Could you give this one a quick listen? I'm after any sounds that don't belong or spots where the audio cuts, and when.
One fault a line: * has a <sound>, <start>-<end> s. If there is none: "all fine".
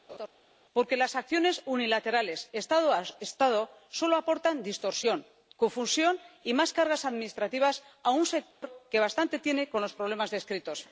* has a laugh, 0.1-0.3 s
* has a dropout, 8.5-8.6 s